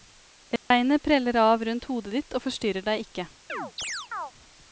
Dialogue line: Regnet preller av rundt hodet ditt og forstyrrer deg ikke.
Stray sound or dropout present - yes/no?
yes